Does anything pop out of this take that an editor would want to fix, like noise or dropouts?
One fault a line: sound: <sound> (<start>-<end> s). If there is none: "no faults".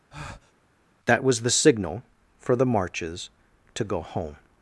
sound: breath (0.1-0.5 s)